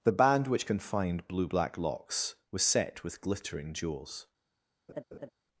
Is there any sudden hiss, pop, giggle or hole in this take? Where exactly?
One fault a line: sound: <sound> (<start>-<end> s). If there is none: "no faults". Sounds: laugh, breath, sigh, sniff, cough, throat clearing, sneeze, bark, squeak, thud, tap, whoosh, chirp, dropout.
sound: laugh (4.9-5.3 s)